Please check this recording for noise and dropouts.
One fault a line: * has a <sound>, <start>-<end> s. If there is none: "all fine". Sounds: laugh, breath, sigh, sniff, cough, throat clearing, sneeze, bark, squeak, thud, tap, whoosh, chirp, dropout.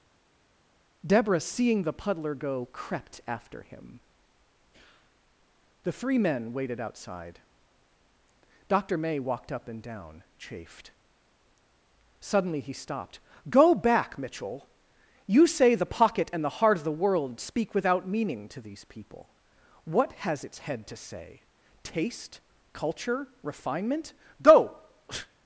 all fine